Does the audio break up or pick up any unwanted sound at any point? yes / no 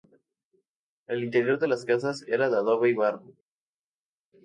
no